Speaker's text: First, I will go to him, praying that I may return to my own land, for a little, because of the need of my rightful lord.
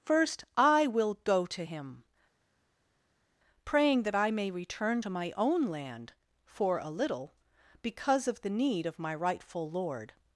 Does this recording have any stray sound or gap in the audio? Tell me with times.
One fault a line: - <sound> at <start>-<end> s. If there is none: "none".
none